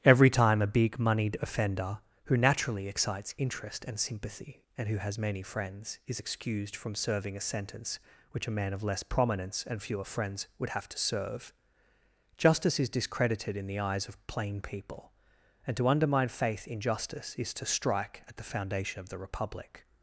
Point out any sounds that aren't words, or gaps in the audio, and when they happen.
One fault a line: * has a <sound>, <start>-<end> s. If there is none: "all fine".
all fine